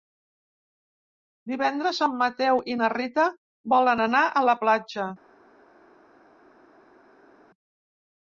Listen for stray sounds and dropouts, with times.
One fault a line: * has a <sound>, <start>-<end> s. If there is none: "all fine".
all fine